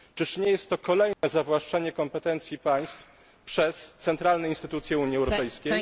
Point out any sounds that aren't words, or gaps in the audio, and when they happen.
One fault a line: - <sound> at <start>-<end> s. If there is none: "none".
- dropout at 1.1-1.2 s